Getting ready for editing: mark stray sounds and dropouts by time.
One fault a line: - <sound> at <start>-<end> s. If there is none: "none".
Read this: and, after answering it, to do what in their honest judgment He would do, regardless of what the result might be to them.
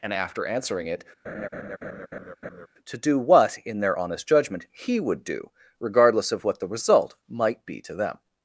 - laugh at 1.2-2.7 s